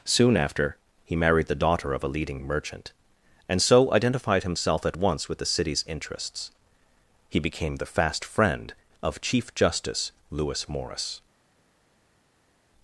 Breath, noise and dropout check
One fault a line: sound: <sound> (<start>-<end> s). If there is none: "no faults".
no faults